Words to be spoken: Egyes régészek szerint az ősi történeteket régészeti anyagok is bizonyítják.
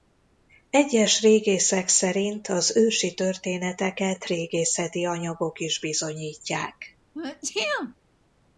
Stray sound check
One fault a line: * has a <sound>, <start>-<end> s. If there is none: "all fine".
* has a sneeze, 7.1-8.0 s